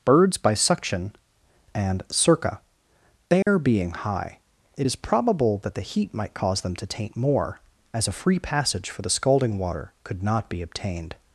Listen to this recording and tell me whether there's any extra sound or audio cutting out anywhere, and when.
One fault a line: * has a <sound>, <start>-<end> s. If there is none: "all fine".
* has a dropout, 3.4-3.5 s